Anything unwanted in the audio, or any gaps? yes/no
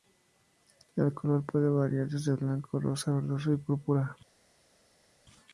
no